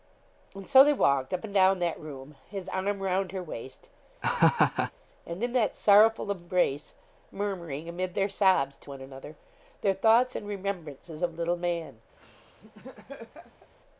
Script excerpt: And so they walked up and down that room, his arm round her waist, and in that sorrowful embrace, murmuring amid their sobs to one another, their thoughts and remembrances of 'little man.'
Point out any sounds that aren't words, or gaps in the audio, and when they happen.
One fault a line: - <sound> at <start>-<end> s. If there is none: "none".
- laugh at 4.2-4.9 s
- laugh at 12.2-13.7 s